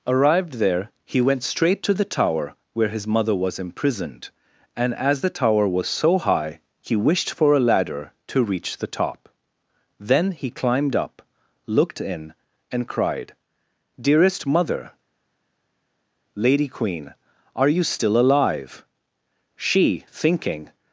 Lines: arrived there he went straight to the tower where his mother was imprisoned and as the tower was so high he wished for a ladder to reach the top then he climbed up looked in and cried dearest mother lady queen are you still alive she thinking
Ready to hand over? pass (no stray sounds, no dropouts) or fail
pass